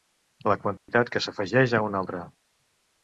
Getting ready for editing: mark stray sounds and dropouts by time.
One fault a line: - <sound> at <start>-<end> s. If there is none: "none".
- dropout at 0.8-0.9 s